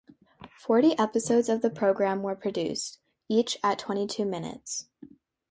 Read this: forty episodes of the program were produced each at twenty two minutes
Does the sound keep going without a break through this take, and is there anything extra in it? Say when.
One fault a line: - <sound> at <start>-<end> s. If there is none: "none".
none